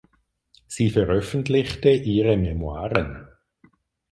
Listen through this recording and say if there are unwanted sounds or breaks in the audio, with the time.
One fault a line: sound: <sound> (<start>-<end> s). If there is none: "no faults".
no faults